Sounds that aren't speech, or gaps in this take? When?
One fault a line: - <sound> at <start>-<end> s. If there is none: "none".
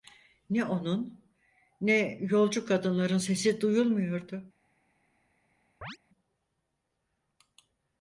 - chirp at 5.8-6.0 s